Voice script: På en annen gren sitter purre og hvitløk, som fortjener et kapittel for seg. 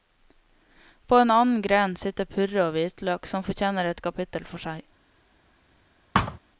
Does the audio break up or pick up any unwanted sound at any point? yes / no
yes